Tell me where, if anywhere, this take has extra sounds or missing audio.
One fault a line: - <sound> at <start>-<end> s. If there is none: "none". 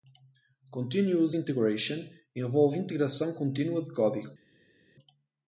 none